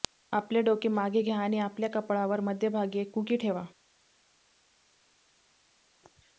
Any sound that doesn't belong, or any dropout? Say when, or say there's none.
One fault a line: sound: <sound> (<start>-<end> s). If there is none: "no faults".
no faults